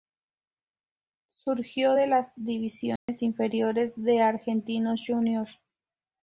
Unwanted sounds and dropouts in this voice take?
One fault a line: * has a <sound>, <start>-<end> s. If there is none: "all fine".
* has a dropout, 3.0-3.1 s